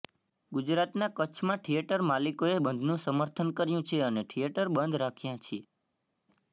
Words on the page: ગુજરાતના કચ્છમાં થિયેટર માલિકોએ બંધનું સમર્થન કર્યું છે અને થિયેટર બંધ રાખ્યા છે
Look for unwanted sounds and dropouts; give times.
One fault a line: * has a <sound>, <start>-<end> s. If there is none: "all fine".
all fine